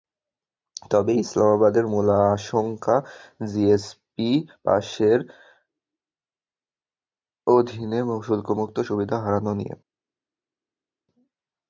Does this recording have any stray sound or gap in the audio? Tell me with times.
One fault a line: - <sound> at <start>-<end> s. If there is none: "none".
none